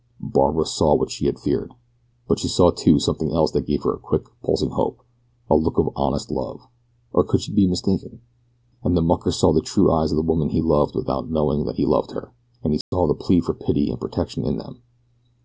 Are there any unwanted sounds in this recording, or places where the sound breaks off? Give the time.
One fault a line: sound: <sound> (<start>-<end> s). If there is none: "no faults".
sound: dropout (12.8-12.9 s)